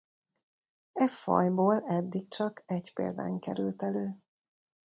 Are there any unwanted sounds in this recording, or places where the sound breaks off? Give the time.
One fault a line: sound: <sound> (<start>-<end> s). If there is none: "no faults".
no faults